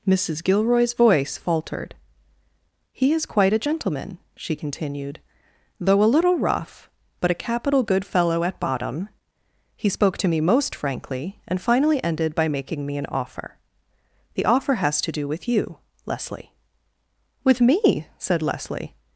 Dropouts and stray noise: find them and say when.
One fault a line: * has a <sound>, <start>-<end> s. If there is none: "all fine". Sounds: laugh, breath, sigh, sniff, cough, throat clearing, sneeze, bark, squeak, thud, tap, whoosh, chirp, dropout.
all fine